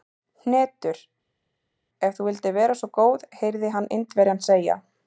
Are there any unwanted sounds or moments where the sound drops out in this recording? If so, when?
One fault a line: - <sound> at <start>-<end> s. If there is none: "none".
none